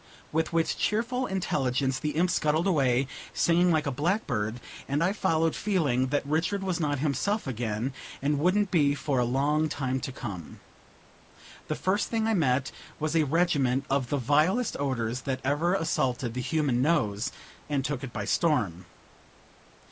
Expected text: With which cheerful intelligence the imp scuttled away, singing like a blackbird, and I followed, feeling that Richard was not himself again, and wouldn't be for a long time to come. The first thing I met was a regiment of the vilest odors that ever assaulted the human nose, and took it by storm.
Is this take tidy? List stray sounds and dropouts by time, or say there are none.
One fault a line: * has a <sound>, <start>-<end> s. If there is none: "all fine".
all fine